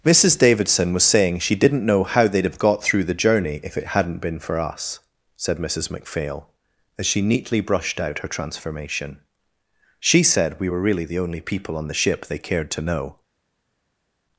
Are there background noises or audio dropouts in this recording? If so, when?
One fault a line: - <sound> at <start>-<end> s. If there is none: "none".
none